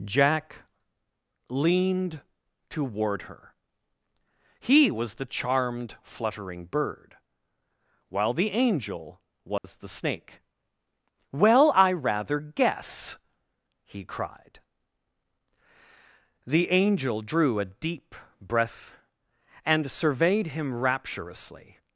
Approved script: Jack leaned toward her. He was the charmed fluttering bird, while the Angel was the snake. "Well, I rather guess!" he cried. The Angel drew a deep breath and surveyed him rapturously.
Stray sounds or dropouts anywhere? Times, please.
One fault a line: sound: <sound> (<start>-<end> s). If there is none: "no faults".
sound: dropout (9.6-9.6 s)